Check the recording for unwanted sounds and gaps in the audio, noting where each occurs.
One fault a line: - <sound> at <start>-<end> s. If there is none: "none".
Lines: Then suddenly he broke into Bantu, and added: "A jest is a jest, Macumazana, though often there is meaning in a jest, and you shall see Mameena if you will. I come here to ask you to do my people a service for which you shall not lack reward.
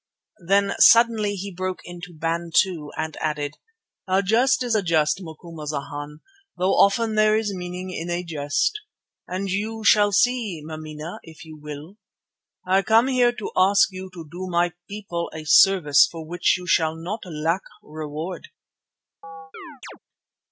- chirp at 19.2-20.0 s